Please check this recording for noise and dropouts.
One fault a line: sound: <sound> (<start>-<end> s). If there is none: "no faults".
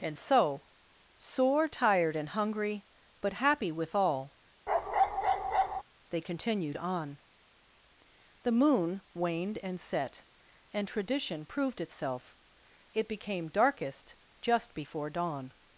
sound: bark (4.7-5.8 s)